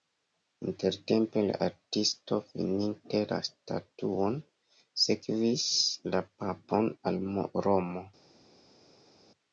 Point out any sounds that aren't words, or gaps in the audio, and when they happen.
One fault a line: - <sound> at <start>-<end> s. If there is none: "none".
none